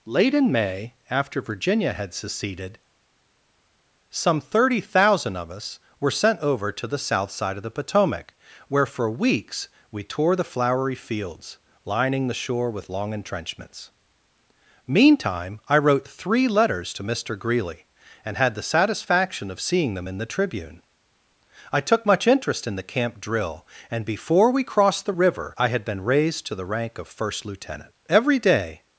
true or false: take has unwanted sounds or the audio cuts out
false